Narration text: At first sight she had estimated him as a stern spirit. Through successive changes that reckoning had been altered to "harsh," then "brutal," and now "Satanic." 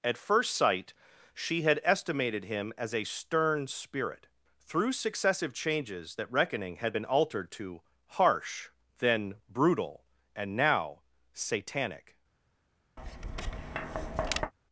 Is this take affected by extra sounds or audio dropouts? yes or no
yes